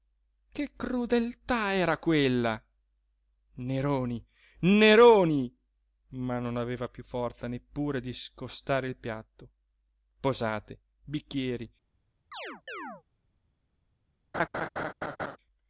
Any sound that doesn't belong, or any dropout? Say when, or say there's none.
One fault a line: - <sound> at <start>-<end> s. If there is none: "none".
- chirp at 12.3-13.0 s
- laugh at 14.3-15.4 s